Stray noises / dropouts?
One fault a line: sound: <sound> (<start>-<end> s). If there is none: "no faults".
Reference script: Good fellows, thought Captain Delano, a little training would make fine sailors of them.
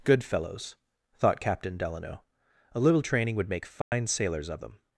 sound: dropout (3.8-3.9 s)